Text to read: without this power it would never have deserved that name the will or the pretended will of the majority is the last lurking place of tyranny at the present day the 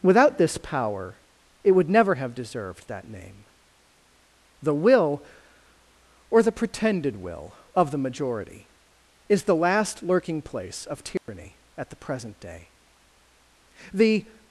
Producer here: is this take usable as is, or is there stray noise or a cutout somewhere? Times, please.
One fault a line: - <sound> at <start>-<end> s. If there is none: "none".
- dropout at 11.2-11.3 s